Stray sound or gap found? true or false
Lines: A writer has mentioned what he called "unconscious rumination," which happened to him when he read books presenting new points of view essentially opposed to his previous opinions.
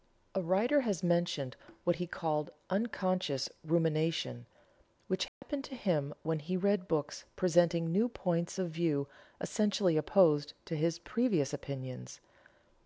true